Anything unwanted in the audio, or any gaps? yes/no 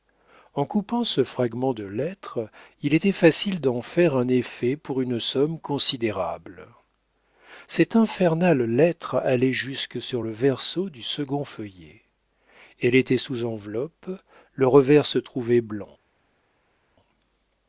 no